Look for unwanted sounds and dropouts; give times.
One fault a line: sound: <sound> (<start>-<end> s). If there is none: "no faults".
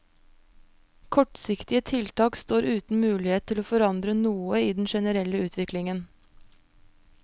no faults